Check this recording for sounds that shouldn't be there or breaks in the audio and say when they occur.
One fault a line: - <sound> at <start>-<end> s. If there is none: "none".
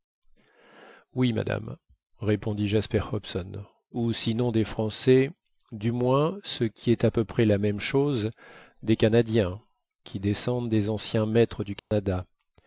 - dropout at 11.8-11.9 s